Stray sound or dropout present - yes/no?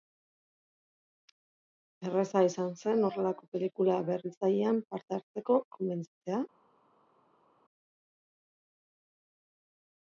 no